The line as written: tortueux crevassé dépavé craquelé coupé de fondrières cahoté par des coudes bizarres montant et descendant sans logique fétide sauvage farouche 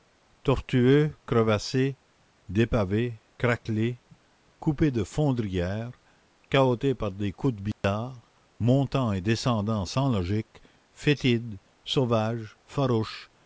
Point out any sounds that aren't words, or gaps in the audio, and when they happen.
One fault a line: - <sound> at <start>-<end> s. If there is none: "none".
- dropout at 7.7-7.8 s